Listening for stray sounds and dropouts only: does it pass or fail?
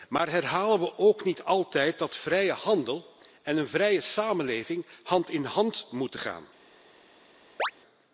fail